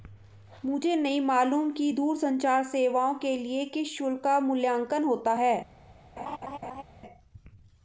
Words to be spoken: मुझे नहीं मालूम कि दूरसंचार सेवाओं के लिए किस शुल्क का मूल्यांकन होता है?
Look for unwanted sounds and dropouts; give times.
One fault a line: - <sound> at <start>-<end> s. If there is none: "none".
- laugh at 6.2-6.8 s